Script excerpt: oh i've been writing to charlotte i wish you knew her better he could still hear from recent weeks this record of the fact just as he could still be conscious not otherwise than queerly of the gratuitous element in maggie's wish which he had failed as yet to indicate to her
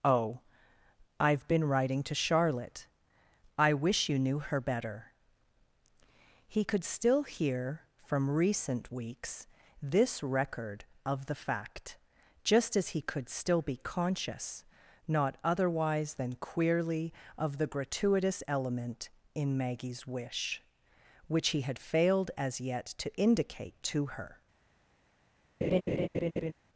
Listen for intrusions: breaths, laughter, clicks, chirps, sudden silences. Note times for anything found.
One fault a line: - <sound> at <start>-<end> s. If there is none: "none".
- laugh at 25.6-26.5 s